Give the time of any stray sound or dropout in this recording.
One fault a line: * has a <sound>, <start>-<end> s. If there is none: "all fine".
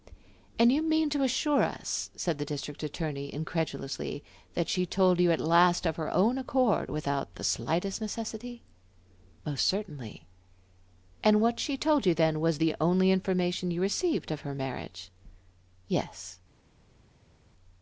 all fine